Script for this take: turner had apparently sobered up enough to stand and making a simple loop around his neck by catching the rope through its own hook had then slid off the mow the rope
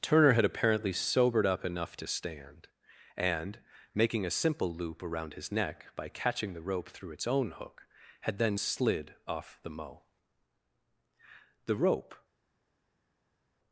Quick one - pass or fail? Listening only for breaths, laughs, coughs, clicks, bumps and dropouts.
pass